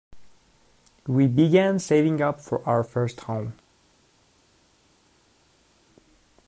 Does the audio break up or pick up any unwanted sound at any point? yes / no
no